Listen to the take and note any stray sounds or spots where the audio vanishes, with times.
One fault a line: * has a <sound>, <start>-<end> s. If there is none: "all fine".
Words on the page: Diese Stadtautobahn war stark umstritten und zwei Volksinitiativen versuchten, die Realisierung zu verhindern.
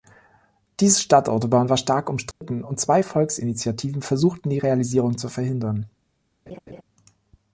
* has a dropout, 2.3-2.4 s
* has a laugh, 6.5-6.8 s